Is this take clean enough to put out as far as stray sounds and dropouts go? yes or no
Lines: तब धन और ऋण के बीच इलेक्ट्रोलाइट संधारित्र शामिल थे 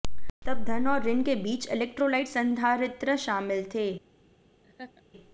no